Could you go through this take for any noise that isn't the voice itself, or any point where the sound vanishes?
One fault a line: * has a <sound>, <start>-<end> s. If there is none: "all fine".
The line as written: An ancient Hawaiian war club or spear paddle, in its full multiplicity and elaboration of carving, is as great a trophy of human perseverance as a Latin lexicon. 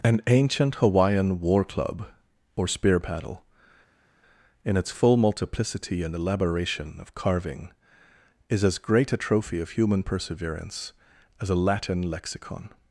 all fine